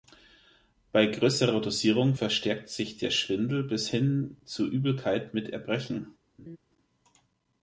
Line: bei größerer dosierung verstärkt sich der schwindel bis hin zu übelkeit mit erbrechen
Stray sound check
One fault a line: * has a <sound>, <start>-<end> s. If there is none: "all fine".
* has a laugh, 6.4-6.6 s